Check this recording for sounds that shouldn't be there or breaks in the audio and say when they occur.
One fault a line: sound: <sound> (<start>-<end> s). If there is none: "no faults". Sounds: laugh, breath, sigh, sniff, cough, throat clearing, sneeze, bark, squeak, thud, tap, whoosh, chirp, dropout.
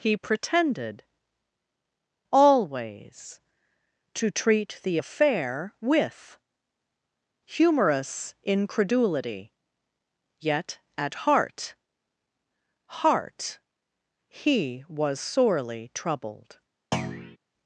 sound: thud (16.9-17.4 s)